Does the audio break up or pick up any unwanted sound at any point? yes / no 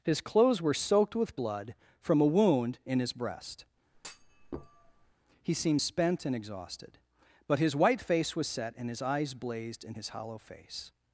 yes